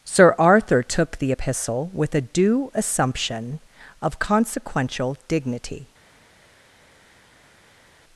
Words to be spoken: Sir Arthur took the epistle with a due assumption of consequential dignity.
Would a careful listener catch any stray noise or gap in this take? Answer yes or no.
no